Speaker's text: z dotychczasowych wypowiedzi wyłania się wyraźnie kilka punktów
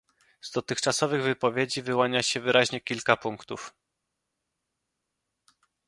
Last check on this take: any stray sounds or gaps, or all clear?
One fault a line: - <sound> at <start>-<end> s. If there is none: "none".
none